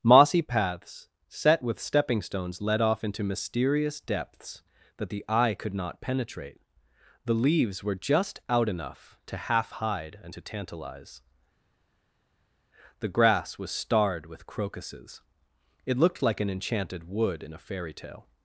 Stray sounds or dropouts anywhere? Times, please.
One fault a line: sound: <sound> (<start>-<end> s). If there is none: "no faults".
no faults